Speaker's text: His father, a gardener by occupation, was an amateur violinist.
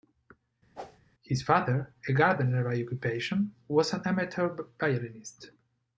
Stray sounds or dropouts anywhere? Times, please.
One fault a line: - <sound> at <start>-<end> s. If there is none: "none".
- whoosh at 0.8-1.0 s